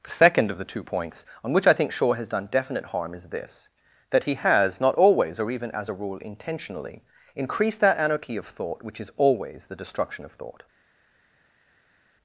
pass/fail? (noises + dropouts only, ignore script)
pass